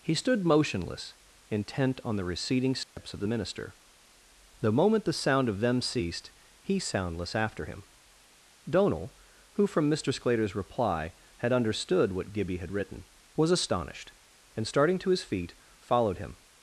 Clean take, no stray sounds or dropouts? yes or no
no